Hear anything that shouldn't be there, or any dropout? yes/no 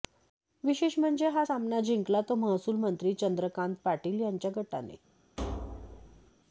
yes